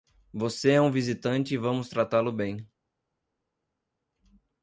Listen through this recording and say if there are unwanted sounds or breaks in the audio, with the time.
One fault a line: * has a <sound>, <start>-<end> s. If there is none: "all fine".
all fine